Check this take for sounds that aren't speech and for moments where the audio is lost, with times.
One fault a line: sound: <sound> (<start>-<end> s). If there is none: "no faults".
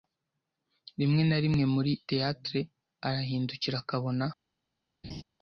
sound: laugh (5.0-5.2 s)